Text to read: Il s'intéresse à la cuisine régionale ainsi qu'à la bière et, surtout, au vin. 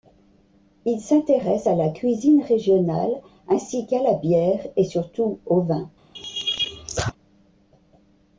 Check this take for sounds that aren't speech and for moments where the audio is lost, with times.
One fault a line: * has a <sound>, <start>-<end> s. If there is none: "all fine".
* has a laugh, 6.1-7.1 s